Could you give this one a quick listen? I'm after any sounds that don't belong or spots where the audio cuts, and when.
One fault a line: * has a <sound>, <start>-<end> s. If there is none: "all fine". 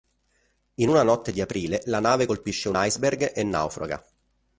all fine